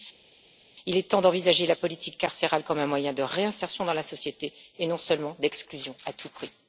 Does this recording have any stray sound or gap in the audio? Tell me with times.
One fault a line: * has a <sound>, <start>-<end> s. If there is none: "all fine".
all fine